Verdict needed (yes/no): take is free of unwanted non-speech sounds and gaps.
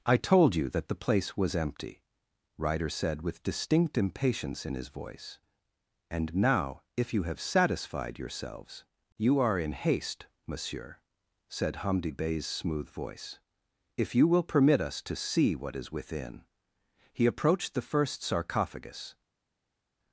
yes